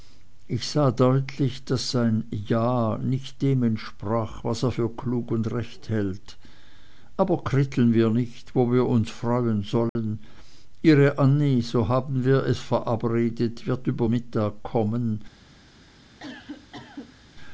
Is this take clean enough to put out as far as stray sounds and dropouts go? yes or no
no